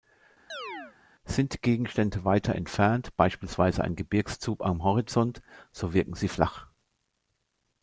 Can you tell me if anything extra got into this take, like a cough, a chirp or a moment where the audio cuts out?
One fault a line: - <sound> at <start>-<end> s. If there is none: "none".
- chirp at 0.5-1.0 s